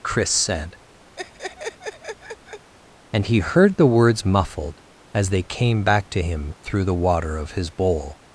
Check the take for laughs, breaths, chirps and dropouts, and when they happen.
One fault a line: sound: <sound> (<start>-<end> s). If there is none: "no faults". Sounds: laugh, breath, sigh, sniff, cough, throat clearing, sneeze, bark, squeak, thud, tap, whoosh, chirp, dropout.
sound: laugh (1.2-2.7 s)